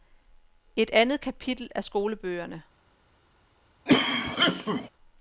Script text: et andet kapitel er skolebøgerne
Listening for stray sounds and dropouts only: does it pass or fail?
fail